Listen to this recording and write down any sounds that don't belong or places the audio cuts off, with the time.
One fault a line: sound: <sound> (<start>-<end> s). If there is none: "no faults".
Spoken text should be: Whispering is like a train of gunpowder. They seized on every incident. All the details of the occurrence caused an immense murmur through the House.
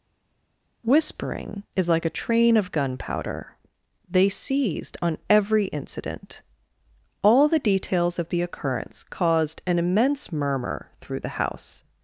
no faults